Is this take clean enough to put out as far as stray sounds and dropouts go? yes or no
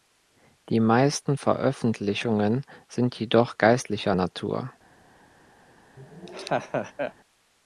no